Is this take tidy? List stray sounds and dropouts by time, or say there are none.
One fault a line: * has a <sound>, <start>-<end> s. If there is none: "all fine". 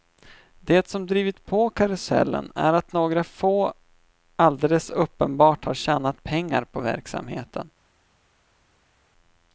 all fine